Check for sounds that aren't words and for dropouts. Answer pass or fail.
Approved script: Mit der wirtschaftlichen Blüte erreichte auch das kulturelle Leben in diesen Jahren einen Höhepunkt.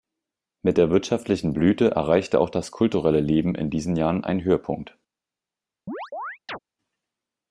fail